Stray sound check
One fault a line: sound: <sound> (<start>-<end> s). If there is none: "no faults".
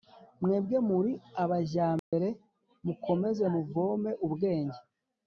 sound: dropout (2.0-2.1 s)